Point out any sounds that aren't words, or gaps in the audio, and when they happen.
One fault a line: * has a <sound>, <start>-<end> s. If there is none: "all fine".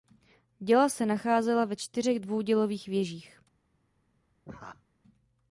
* has a laugh, 4.4-4.8 s